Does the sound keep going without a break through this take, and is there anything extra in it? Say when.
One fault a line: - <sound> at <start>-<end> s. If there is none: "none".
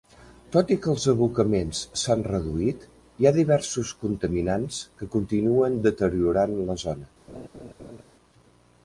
- laugh at 7.3-8.0 s